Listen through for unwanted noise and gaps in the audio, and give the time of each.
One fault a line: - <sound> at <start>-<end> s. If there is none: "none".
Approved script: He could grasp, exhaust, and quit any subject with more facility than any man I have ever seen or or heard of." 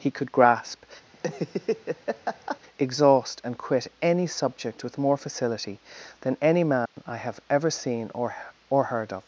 - laugh at 1.1-2.6 s
- dropout at 6.9-7.0 s